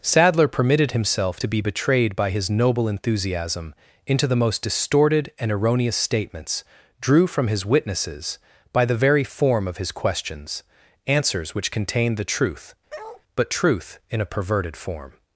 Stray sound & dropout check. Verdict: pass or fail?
fail